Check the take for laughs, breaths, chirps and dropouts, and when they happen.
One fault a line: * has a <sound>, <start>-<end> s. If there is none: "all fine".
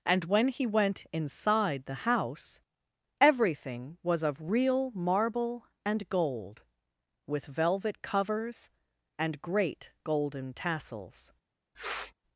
* has a sniff, 11.7-12.1 s